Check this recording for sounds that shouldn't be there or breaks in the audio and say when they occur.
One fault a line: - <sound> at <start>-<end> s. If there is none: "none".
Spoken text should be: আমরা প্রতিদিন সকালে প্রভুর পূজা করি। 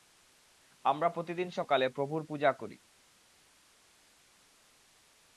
none